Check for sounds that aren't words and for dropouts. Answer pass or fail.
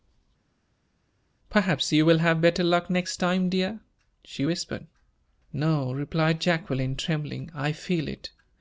pass